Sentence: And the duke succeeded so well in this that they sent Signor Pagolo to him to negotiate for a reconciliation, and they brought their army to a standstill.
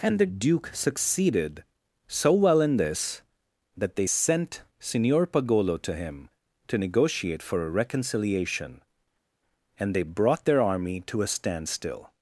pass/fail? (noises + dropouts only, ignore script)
pass